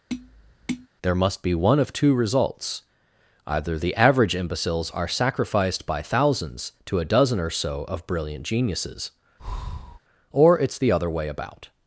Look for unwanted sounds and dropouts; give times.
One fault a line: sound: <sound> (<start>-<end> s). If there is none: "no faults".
sound: tap (0.1-0.9 s)
sound: breath (9.4-10.0 s)